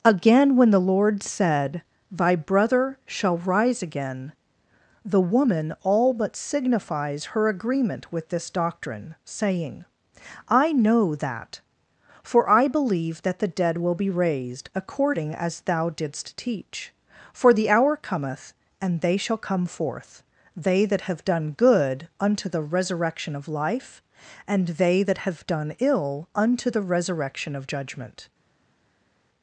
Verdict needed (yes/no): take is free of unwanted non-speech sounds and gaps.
yes